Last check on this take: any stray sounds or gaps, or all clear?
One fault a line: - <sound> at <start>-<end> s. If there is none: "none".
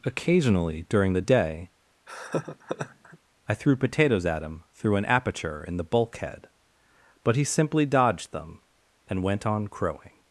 - laugh at 2.1-3.2 s